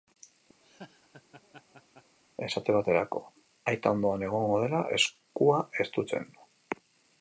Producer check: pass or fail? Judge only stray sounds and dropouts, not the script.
fail